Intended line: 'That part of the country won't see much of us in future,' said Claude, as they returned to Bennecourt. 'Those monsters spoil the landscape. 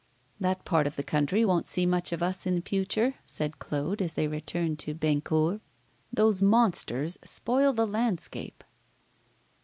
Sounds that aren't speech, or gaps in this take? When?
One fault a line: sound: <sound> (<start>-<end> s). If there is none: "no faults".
no faults